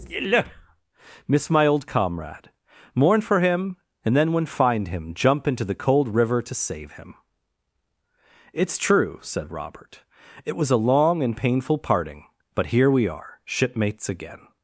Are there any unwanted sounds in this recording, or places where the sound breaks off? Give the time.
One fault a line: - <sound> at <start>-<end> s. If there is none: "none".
none